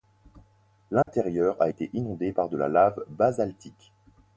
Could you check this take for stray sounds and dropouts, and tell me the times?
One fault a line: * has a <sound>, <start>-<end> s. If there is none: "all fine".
* has a dropout, 1.0-1.1 s